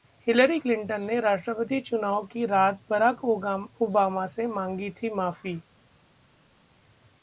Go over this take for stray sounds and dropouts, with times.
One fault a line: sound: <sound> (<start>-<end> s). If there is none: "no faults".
no faults